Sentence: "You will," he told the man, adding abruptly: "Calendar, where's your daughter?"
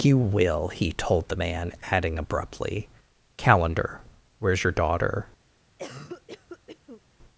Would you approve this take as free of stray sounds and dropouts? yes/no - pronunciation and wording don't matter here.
no